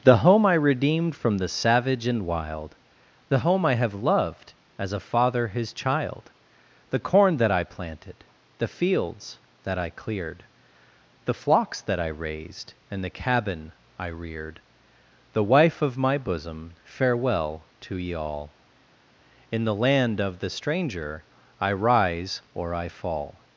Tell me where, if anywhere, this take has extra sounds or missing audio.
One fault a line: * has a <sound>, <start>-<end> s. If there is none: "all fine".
all fine